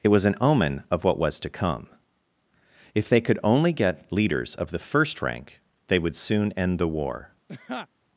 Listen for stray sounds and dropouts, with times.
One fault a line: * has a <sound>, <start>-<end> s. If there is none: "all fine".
* has a laugh, 7.5-7.9 s